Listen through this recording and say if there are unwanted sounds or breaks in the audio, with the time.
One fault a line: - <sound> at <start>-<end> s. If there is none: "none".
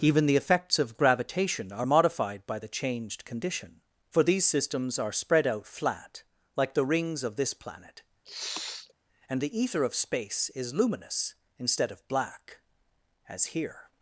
- sniff at 8.2-8.9 s